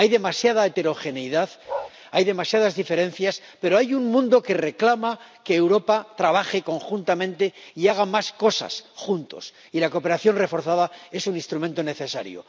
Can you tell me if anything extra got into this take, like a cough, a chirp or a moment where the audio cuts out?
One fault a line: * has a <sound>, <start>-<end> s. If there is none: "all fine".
* has a bark, 1.6-1.9 s